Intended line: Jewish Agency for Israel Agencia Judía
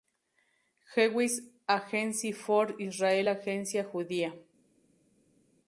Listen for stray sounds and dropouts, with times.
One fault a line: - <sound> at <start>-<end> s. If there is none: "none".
none